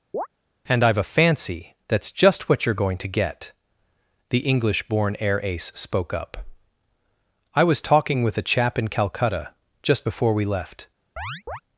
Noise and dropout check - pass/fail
fail